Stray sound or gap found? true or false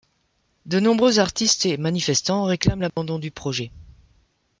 true